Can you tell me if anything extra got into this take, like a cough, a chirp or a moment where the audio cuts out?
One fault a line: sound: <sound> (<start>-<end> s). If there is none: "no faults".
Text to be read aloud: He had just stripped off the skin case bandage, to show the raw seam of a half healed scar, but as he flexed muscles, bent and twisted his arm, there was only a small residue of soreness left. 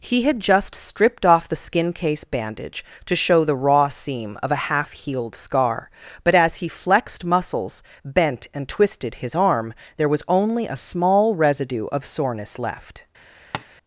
sound: tap (13.5-13.7 s)